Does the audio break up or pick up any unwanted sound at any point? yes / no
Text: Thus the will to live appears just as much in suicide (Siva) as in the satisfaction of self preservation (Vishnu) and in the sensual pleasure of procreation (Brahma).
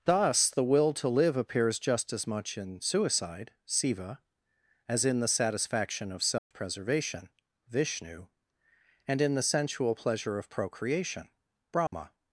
yes